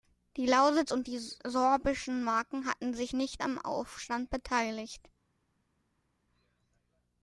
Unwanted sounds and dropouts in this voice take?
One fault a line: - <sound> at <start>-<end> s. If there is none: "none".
none